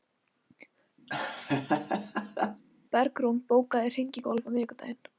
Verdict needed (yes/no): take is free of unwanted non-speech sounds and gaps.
no